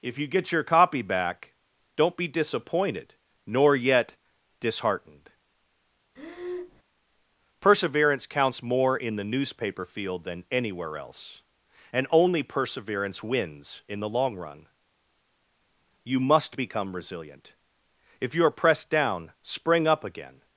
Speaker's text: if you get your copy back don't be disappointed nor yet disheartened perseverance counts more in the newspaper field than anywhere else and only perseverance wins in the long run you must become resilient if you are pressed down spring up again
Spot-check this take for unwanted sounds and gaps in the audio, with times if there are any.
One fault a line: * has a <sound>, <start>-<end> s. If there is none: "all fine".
* has a breath, 6.2-6.8 s